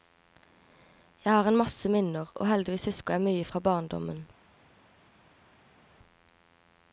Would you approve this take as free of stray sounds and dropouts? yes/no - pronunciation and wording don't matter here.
yes